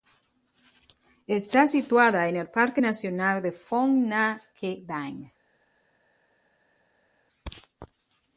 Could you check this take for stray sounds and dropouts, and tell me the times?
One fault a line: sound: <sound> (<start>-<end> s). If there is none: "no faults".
no faults